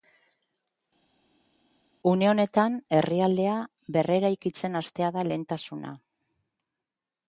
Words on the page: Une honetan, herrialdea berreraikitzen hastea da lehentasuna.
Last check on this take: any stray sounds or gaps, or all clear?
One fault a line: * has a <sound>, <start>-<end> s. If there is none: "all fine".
all fine